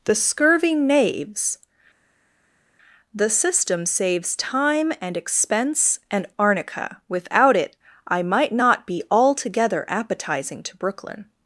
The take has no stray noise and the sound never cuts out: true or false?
true